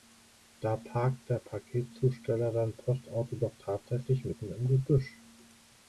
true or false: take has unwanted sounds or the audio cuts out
false